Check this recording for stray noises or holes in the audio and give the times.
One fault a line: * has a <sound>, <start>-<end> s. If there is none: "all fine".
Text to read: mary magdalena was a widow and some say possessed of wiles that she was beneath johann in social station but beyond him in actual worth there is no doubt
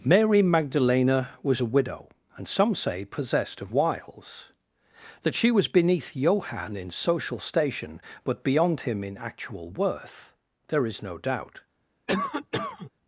* has a cough, 12.1-12.9 s